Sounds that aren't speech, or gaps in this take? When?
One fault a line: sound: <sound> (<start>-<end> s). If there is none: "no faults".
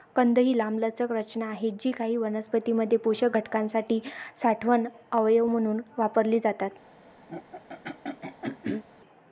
sound: throat clearing (7.3-8.8 s)